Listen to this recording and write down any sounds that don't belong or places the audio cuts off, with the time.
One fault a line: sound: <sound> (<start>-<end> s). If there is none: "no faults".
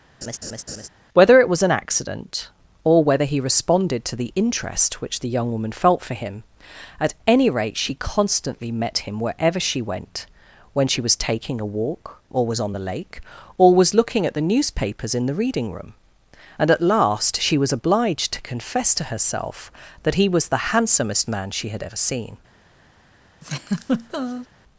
sound: laugh (0.2-0.9 s)
sound: laugh (23.4-24.5 s)